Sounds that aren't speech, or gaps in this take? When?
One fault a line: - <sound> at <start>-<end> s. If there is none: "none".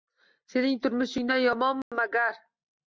- dropout at 1.8-1.9 s